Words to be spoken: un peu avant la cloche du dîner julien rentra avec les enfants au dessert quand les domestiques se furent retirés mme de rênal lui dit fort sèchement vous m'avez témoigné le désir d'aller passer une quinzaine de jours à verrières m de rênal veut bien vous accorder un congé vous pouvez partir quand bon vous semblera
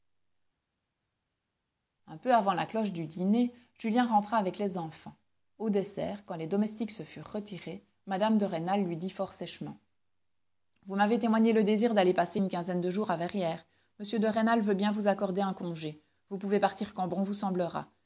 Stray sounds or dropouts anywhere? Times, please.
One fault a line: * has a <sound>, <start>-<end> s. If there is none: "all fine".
all fine